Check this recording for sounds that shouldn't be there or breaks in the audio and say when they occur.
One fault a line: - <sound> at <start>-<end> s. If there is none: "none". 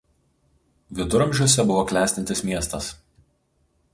none